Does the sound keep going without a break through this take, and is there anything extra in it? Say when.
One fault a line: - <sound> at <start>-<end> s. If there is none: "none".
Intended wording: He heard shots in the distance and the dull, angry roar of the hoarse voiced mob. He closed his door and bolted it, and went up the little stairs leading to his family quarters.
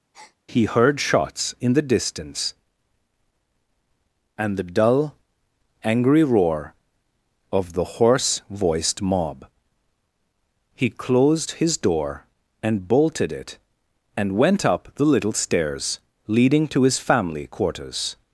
- breath at 0.1-0.4 s